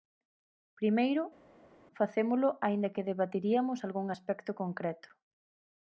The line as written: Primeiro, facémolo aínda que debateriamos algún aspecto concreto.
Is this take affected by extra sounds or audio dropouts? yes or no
no